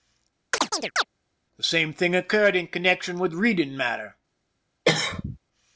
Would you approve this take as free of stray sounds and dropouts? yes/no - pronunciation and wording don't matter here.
no